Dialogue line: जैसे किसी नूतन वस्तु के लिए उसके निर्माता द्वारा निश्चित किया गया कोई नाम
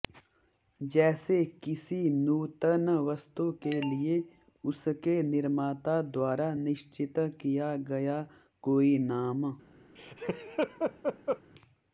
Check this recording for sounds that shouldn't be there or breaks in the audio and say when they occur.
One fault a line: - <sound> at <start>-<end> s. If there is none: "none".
- laugh at 10.0-11.4 s